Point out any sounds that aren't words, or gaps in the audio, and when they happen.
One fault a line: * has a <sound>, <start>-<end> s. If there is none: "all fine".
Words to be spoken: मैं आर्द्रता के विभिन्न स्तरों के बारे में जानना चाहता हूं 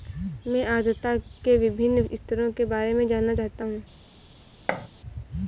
* has a thud, 4.7-4.9 s